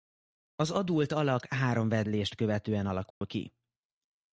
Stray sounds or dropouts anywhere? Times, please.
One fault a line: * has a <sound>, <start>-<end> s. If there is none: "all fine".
* has a dropout, 3.1-3.2 s